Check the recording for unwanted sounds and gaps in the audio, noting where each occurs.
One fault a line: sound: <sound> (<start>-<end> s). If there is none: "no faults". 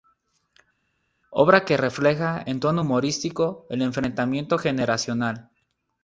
no faults